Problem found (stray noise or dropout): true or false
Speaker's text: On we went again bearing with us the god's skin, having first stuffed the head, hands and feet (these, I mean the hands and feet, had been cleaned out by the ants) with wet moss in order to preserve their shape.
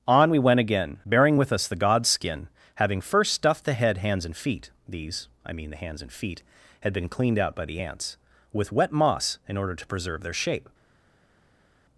false